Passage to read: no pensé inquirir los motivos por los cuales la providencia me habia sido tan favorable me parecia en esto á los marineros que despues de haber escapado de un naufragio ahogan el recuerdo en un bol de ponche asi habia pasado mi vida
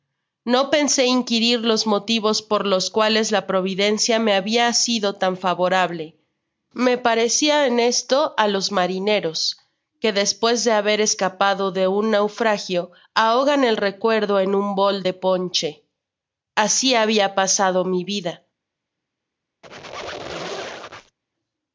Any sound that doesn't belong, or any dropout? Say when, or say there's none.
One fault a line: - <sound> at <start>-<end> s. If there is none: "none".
- squeak at 19.6-21.2 s